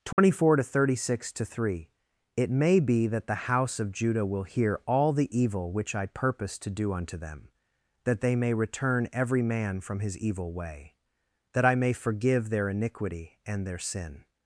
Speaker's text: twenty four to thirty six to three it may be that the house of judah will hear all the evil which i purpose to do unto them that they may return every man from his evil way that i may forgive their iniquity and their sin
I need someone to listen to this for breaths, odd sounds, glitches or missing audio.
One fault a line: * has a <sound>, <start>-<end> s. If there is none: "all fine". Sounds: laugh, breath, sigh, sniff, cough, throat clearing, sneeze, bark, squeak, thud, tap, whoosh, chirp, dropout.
* has a dropout, 0.1-0.2 s